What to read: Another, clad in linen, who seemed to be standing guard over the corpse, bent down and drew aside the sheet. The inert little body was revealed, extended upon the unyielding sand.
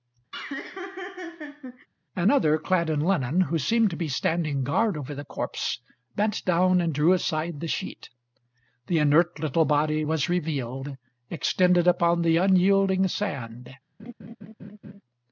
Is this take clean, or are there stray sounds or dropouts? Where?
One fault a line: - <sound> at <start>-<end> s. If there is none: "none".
- laugh at 0.3-1.9 s
- laugh at 14.0-15.0 s